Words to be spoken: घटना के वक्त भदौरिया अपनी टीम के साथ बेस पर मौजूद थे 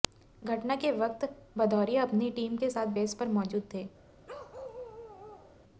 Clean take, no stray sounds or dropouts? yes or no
no